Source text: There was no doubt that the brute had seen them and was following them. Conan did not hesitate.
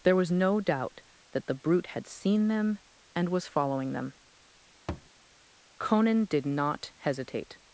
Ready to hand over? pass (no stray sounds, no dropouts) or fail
fail